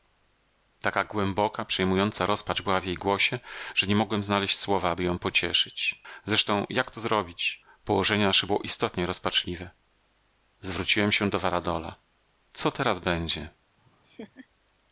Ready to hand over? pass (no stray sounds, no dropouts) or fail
fail